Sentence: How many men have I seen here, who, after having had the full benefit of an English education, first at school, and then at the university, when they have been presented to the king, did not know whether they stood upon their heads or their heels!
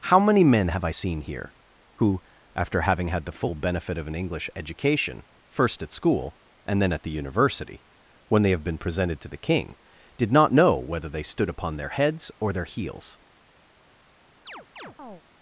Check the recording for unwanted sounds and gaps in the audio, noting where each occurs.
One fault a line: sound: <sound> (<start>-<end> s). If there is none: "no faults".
sound: chirp (14.5-15.2 s)